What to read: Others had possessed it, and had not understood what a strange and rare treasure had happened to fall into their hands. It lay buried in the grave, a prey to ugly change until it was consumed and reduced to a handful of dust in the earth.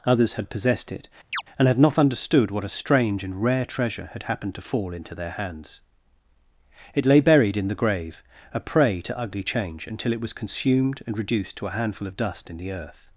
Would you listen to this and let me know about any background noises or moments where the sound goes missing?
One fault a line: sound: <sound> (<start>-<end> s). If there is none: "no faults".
sound: chirp (1.3-1.4 s)